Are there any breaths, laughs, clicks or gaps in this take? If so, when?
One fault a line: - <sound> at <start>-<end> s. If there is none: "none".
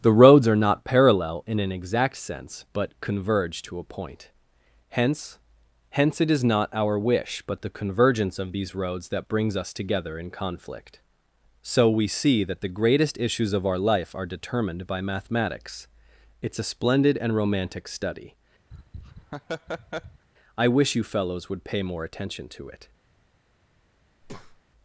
- laugh at 18.7-20.3 s
- breath at 24.2-24.6 s